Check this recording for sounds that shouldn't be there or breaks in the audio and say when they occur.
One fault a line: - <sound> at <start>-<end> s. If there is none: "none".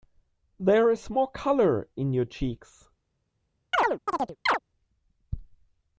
- chirp at 3.7-4.6 s